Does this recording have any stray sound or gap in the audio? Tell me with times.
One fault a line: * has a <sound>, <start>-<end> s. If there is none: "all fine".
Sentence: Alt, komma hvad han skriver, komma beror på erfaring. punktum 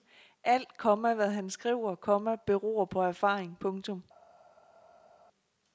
all fine